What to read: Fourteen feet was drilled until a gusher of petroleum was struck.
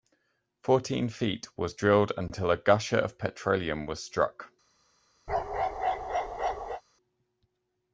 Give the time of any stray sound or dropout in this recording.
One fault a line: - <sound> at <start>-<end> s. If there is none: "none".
- bark at 5.3-6.8 s